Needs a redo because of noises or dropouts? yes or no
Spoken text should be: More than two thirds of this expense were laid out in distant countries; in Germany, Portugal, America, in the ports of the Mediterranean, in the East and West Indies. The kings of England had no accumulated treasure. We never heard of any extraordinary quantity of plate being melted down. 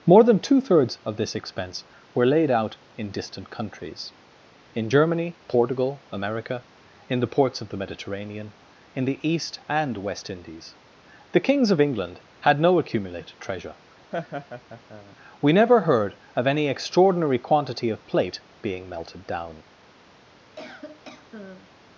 yes